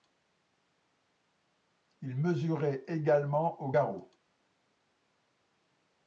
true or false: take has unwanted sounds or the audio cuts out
false